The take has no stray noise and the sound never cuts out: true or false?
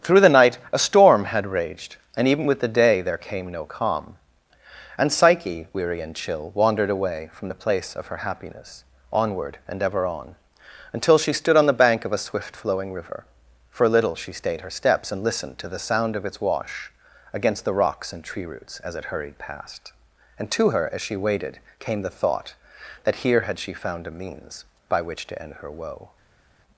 true